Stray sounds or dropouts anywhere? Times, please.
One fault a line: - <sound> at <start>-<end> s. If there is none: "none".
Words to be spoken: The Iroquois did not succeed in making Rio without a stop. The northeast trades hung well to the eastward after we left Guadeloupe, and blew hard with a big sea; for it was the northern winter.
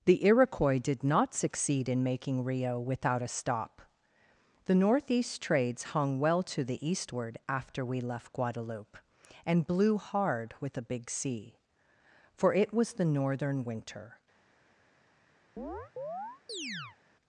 - chirp at 15.6-17.0 s